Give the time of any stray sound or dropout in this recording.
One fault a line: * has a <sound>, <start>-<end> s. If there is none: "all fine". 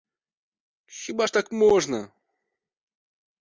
all fine